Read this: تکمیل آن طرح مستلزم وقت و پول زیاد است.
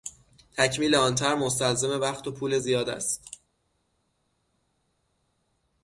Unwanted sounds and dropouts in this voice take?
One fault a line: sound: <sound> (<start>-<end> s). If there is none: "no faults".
no faults